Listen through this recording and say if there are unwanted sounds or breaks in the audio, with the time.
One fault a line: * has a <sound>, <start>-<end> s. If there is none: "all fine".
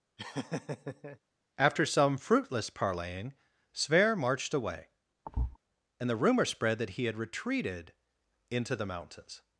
* has a laugh, 0.2-1.2 s
* has a thud, 5.3-5.6 s